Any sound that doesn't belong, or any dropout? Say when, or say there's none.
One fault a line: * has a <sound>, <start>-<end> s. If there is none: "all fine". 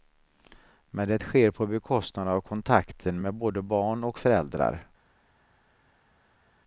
all fine